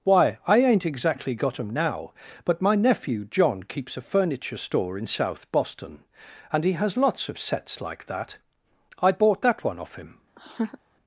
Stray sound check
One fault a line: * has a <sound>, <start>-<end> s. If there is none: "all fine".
* has a laugh, 10.4-10.8 s